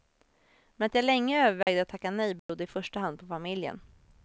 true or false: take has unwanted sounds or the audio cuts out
true